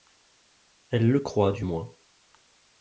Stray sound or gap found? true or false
false